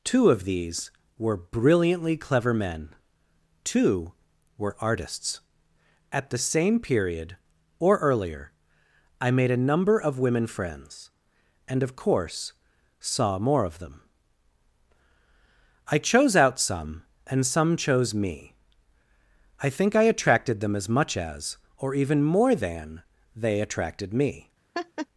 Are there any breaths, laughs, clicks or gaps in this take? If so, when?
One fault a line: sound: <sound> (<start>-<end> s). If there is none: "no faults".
sound: laugh (24.7-25.1 s)